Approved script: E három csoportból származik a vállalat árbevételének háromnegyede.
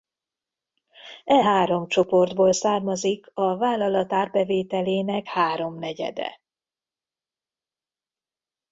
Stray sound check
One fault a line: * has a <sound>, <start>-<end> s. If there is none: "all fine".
all fine